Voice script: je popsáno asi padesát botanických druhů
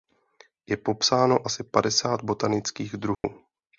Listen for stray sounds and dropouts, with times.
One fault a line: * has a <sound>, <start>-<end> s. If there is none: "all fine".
* has a dropout, 3.1-3.2 s